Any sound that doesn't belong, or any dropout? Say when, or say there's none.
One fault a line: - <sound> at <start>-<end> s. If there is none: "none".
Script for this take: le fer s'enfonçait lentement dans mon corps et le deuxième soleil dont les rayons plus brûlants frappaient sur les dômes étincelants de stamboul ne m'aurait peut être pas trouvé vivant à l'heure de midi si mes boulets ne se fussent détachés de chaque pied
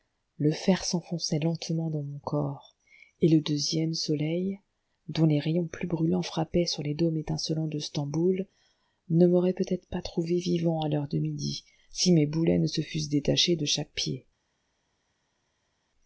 none